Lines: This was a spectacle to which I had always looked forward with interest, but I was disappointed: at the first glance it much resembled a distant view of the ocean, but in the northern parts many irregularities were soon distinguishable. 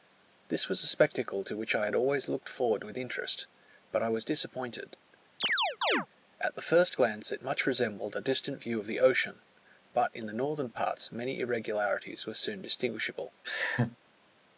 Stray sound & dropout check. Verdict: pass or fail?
fail